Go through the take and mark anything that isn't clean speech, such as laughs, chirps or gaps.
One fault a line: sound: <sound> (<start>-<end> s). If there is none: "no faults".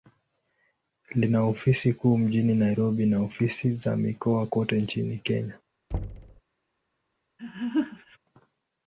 sound: thud (5.9-6.4 s)
sound: laugh (7.4-8.2 s)